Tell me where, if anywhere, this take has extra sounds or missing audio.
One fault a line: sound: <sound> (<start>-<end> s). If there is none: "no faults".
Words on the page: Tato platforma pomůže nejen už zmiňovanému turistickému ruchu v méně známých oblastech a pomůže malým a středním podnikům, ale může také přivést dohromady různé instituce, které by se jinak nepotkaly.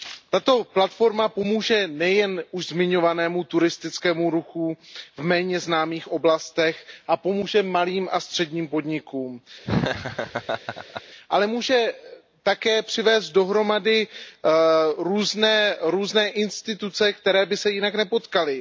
sound: laugh (9.6-11.0 s)